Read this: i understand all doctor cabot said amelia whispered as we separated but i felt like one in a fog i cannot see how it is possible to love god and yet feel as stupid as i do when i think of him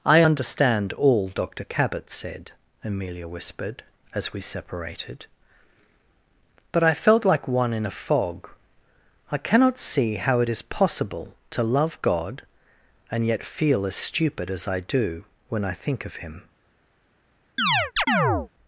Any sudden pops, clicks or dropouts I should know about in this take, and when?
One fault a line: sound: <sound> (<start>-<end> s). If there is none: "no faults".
sound: chirp (17.6-18.5 s)